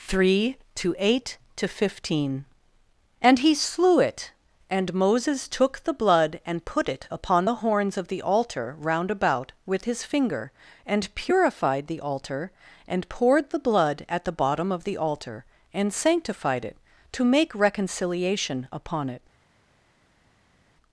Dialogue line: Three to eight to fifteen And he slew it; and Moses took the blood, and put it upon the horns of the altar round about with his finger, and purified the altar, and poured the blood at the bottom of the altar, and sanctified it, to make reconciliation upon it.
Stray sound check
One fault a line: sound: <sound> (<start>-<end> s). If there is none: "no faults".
no faults